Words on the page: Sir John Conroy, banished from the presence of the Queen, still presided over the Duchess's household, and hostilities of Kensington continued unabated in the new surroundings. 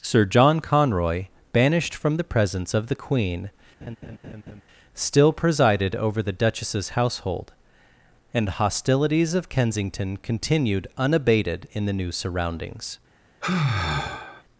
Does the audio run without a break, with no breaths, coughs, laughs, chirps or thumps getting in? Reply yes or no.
no